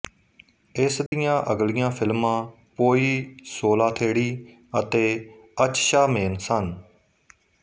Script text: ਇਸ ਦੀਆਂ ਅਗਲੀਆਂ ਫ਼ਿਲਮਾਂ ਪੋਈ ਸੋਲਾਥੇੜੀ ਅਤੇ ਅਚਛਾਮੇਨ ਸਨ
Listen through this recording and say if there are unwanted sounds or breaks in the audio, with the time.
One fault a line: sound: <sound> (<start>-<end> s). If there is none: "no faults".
sound: dropout (1.1-1.1 s)